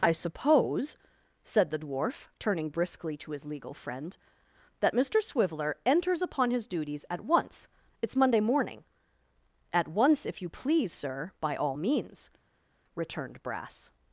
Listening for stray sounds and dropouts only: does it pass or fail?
pass